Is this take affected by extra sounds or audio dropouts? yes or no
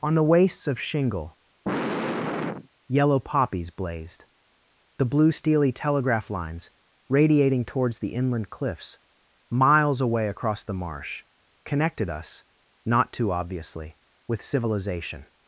yes